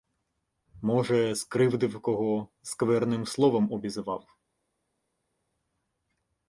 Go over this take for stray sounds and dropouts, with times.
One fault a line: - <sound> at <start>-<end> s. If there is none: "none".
none